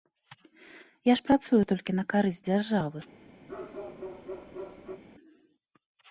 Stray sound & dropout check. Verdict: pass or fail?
fail